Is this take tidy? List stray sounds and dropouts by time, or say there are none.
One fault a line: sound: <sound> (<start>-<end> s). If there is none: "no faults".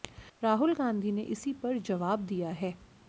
no faults